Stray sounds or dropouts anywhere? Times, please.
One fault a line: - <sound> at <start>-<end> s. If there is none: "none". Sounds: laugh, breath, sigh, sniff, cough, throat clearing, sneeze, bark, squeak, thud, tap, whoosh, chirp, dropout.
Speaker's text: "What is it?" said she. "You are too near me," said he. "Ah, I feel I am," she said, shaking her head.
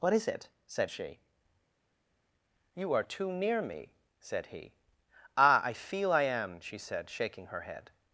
none